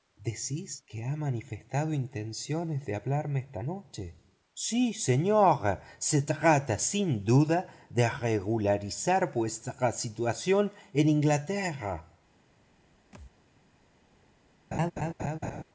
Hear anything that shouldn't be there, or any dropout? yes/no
yes